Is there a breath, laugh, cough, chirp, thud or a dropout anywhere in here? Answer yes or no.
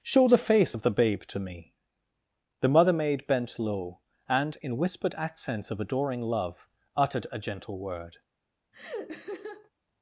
yes